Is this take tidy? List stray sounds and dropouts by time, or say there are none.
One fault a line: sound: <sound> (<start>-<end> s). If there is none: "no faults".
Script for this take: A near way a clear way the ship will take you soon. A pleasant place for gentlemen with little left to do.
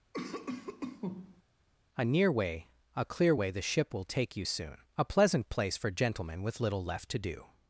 sound: cough (0.1-1.4 s)